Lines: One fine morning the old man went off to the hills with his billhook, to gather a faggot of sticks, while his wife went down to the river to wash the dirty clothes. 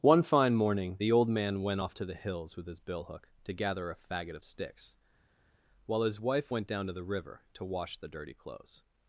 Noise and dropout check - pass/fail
pass